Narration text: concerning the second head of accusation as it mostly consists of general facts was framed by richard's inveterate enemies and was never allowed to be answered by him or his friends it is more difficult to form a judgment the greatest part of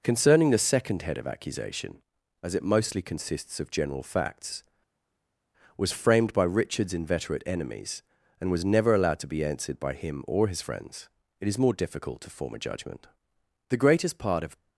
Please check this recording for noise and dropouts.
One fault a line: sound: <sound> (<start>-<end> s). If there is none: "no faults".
no faults